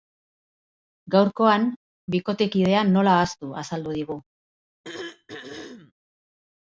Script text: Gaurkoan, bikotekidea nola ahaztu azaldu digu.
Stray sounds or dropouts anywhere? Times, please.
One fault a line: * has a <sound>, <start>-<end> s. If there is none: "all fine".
* has a throat clearing, 4.8-5.9 s